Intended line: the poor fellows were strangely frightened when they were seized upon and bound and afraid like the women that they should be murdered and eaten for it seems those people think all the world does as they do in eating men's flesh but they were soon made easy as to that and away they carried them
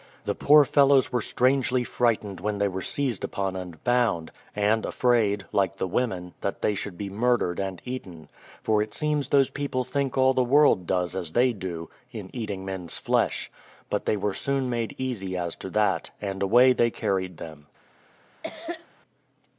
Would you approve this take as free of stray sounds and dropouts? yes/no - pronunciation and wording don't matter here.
no